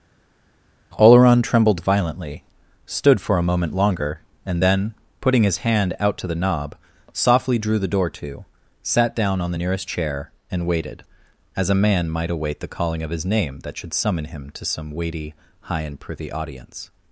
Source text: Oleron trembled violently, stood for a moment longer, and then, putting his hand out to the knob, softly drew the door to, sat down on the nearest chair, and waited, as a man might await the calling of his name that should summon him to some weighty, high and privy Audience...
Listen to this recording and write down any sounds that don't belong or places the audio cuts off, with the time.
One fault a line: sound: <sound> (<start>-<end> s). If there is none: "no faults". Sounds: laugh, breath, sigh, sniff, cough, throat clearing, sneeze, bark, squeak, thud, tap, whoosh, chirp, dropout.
no faults